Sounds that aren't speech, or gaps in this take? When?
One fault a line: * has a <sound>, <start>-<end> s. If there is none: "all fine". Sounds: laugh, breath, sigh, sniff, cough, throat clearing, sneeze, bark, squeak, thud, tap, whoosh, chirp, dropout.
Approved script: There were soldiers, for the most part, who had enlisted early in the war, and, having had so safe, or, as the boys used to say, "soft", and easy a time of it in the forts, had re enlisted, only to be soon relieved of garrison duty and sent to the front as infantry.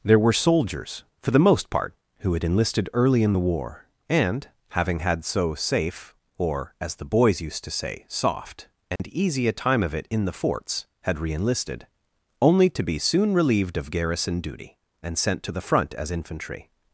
* has a dropout, 9.0-9.0 s